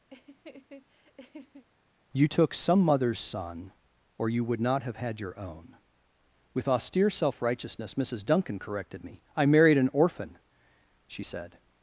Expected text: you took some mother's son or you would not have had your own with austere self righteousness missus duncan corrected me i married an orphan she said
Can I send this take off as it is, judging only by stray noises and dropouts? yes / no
no